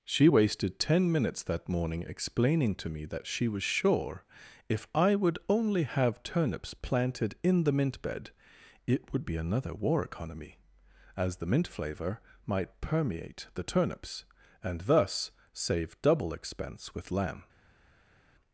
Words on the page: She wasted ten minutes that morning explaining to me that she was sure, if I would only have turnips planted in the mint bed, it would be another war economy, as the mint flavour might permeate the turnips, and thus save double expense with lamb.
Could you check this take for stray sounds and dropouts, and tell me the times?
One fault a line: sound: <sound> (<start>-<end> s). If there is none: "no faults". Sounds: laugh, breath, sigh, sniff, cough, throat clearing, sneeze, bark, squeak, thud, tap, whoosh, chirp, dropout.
no faults